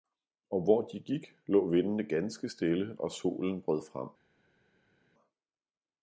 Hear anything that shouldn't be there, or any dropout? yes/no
no